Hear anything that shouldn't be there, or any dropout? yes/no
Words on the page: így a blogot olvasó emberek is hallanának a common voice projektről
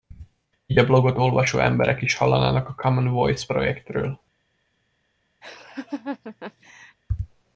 yes